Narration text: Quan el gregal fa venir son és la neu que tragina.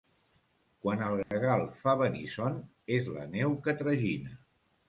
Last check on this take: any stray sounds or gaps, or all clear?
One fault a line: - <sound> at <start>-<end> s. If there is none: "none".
- dropout at 1.2-1.3 s